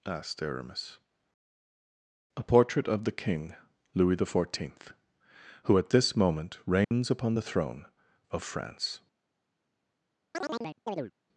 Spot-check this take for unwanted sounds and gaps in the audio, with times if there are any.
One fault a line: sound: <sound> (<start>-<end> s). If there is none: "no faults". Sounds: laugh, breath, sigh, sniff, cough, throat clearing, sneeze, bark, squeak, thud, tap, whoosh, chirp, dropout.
sound: dropout (6.8-6.9 s)
sound: chirp (10.3-11.1 s)